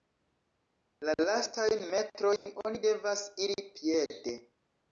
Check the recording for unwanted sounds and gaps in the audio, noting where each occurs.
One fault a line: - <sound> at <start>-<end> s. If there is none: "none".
- dropout at 2.4-2.5 s